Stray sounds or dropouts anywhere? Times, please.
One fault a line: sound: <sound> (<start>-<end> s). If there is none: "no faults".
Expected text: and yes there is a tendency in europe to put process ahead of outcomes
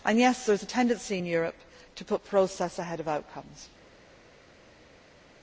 no faults